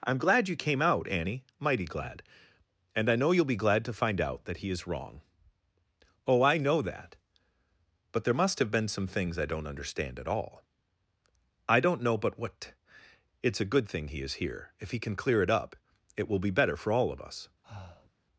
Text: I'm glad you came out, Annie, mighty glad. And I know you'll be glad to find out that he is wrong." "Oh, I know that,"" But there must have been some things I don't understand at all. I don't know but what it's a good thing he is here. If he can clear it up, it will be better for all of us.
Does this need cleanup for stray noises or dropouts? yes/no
yes